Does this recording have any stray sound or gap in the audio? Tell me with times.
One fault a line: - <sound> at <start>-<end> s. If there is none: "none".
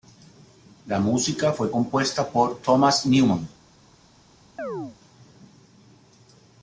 - chirp at 4.6-5.0 s